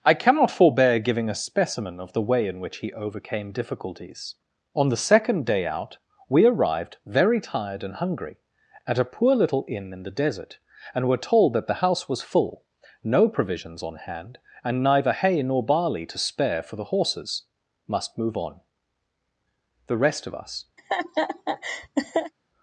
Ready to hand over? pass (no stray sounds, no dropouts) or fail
fail